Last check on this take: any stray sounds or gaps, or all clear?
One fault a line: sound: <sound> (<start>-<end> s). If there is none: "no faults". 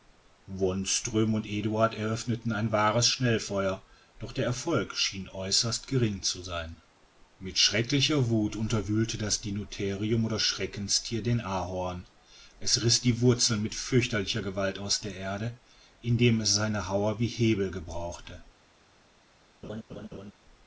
sound: laugh (19.6-20.3 s)